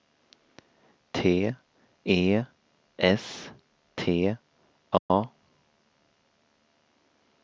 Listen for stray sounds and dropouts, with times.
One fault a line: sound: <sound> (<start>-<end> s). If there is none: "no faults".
sound: dropout (5.0-5.1 s)